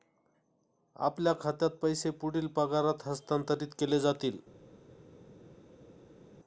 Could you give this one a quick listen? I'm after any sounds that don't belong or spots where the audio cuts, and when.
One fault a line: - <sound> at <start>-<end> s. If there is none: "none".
none